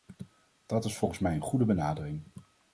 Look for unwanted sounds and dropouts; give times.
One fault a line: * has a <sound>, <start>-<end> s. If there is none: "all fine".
all fine